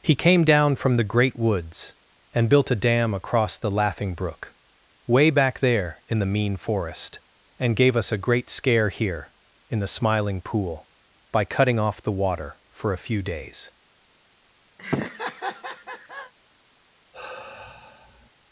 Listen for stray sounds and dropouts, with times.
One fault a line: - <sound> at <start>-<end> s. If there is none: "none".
- laugh at 14.8-16.3 s
- sigh at 17.1-18.3 s